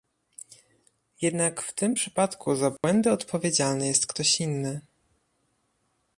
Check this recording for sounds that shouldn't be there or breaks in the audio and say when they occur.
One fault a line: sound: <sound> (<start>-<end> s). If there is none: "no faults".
sound: dropout (2.8-2.8 s)